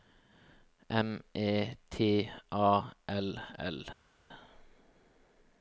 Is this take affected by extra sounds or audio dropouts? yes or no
no